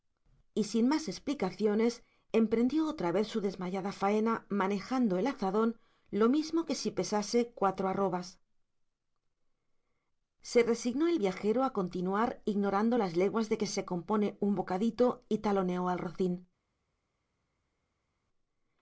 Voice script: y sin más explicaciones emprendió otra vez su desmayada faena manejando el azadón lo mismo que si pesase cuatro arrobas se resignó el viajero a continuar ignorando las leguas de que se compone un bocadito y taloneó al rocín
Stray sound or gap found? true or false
false